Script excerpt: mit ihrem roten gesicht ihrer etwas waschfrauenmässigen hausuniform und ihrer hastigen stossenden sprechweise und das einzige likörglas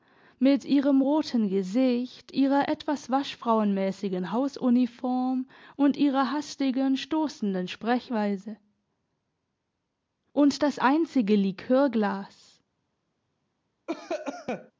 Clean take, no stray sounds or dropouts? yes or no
no